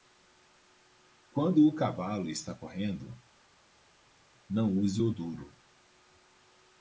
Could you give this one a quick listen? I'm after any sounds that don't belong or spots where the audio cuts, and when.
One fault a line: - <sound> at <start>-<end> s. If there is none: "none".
none